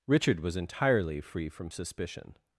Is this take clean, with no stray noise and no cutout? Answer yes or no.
yes